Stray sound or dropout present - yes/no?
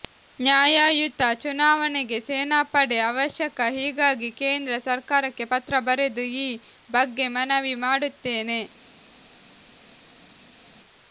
no